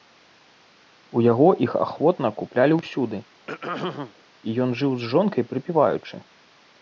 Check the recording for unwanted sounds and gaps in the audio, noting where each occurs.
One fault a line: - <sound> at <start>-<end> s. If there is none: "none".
- throat clearing at 3.5-4.1 s